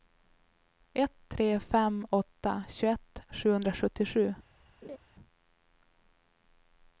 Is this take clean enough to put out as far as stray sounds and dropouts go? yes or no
no